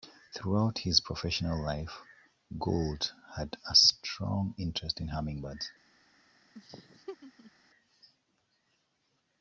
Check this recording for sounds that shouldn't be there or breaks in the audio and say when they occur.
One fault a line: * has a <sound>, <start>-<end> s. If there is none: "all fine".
* has a laugh, 6.5-7.5 s